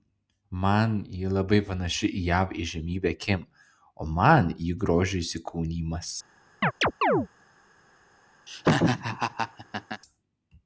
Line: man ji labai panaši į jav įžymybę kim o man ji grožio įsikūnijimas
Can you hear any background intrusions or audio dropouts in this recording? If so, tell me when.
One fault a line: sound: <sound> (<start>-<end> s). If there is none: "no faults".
sound: chirp (6.6-7.3 s)
sound: laugh (8.5-10.0 s)